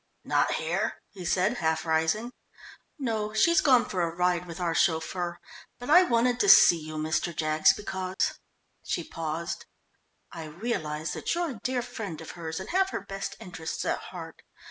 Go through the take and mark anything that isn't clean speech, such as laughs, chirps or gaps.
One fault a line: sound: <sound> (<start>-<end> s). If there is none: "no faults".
sound: dropout (8.1-8.2 s)